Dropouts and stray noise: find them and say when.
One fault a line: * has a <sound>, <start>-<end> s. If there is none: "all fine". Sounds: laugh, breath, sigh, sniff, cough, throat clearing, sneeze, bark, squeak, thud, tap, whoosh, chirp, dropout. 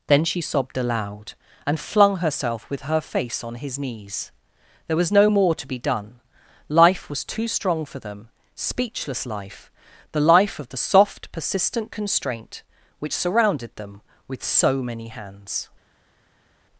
all fine